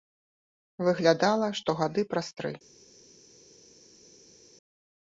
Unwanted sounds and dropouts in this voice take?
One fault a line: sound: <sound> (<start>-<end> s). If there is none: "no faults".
no faults